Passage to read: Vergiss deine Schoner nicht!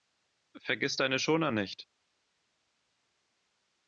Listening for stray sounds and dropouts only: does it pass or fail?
pass